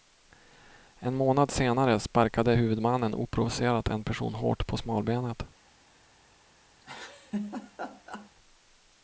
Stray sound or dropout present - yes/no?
yes